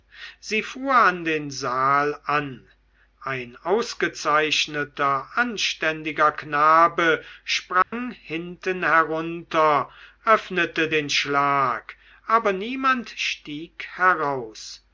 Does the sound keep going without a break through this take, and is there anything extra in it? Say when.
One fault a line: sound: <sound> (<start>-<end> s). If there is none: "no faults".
sound: dropout (7.8-7.9 s)